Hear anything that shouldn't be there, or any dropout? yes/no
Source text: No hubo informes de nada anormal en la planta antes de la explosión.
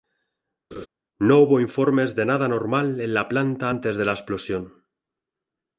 yes